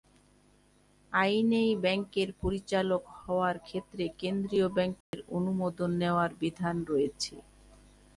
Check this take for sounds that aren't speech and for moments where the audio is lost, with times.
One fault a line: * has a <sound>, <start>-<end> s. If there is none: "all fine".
* has a dropout, 5.0-5.1 s